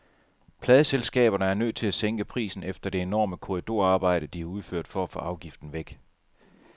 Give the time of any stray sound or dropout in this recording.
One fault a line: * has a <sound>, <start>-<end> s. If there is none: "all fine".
all fine